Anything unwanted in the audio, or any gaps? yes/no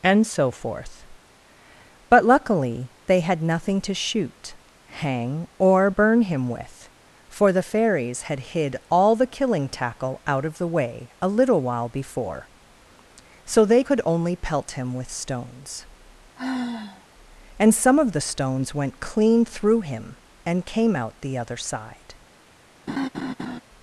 yes